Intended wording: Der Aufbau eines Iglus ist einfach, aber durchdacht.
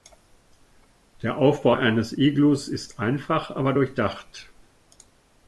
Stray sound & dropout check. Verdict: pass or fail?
pass